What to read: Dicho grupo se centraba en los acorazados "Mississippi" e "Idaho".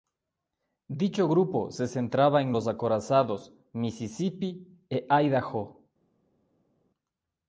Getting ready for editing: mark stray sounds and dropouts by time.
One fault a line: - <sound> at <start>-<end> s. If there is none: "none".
none